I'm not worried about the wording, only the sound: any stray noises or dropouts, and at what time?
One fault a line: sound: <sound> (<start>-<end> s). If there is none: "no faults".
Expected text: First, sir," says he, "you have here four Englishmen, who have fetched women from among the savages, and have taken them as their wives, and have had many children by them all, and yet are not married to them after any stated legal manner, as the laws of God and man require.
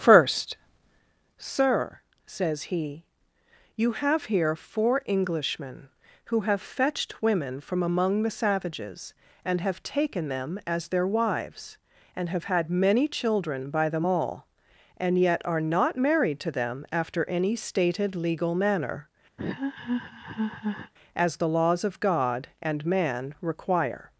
sound: laugh (19.4-20.9 s)